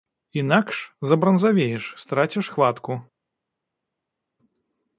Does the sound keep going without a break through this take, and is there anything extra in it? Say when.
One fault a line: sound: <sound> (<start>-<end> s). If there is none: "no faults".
no faults